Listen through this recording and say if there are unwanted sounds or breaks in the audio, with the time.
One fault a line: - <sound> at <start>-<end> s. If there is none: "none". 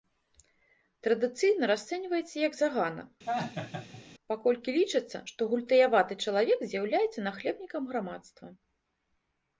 - laugh at 3.3-4.0 s